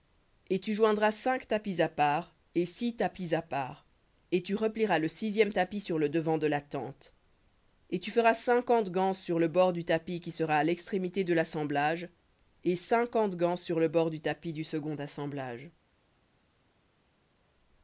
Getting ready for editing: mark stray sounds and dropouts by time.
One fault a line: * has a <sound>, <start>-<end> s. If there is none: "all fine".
all fine